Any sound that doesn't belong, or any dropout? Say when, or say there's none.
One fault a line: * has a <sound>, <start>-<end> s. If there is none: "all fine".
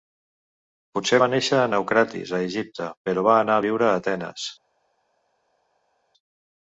all fine